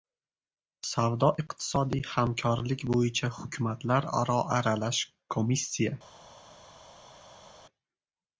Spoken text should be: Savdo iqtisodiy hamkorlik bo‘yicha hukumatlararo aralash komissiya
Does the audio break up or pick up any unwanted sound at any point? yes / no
no